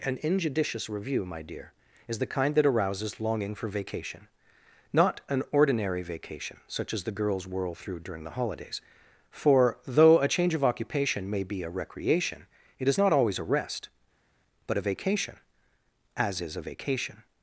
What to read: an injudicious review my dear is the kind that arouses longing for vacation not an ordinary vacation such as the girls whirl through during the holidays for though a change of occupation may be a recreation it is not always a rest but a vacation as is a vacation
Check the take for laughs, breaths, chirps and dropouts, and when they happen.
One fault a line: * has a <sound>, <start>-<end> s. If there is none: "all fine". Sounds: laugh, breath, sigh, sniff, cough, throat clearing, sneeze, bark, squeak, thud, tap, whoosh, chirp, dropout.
all fine